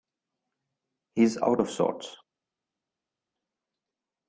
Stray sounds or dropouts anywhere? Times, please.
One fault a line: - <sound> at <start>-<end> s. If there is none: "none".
none